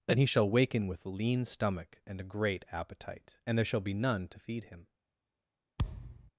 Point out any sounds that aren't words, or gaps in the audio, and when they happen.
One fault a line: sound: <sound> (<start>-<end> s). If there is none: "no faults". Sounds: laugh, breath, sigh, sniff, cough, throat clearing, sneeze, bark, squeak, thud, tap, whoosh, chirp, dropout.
sound: thud (5.8-6.3 s)